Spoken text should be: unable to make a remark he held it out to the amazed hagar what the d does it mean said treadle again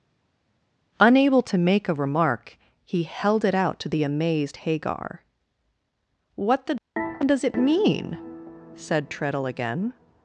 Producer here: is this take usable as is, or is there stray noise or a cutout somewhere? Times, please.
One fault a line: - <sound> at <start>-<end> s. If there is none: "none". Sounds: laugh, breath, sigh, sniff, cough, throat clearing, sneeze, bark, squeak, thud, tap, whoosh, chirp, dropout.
none